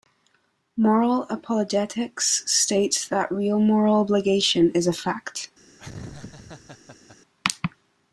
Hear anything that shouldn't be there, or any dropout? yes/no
yes